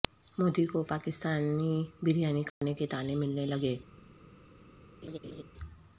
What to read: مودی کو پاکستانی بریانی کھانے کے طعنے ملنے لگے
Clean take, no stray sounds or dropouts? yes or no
no